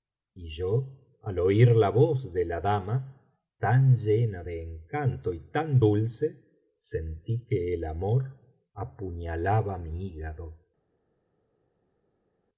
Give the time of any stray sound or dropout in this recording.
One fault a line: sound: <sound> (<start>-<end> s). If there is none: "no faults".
no faults